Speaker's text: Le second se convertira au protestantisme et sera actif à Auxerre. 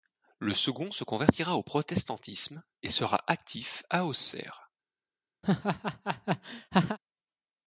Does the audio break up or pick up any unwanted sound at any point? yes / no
yes